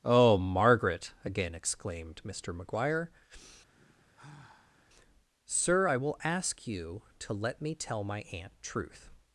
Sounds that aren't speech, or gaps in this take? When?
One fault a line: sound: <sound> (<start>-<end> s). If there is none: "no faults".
sound: sigh (3.7-4.8 s)